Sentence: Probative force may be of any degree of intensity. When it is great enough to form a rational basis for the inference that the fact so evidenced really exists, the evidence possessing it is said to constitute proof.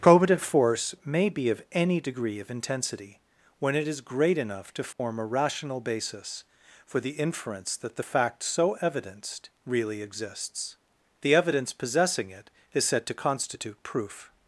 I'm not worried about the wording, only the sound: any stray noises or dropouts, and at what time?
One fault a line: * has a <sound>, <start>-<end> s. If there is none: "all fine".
* has a dropout, 4.9-5.0 s